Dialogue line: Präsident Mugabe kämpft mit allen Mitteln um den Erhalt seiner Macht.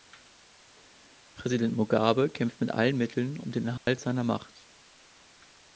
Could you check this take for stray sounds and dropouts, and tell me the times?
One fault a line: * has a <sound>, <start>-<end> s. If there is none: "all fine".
* has a dropout, 3.8-3.9 s